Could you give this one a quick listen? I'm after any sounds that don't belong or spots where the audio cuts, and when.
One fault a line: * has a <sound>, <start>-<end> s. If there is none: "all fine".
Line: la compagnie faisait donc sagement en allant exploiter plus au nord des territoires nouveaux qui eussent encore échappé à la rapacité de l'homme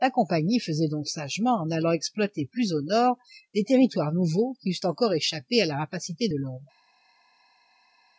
all fine